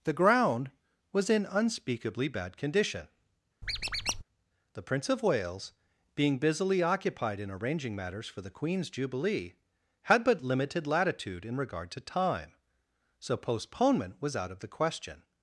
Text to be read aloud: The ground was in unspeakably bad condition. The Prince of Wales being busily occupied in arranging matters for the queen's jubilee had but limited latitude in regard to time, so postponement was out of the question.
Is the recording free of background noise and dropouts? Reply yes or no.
no